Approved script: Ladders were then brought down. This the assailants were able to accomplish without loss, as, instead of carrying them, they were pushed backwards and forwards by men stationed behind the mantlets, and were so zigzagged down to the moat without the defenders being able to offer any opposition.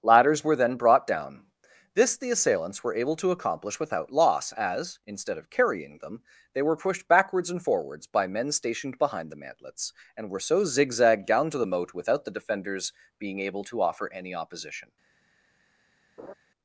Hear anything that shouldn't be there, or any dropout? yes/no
yes